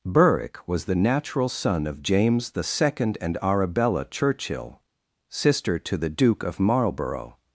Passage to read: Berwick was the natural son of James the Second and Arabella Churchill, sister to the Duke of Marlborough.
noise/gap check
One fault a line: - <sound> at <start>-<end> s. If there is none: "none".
none